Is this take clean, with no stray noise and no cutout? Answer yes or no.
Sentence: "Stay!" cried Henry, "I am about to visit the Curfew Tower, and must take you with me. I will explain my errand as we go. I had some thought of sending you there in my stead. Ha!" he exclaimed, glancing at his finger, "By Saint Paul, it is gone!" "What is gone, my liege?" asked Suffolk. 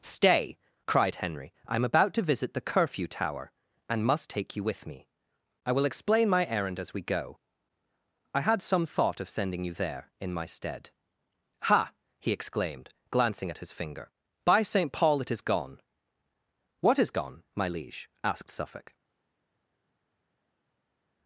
yes